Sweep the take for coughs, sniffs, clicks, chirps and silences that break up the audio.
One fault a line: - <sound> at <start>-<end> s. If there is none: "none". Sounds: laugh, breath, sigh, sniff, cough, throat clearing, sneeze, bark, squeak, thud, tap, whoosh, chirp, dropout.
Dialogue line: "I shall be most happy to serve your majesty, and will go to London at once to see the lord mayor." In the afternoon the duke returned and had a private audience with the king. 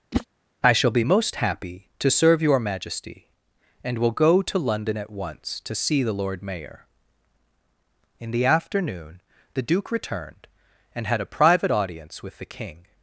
- whoosh at 0.1-0.3 s